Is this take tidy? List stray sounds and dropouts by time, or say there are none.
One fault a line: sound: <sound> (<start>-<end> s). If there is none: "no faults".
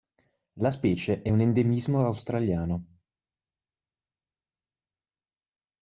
no faults